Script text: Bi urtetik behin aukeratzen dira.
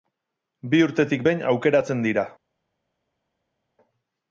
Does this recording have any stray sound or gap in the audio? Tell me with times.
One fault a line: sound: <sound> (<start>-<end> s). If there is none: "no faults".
no faults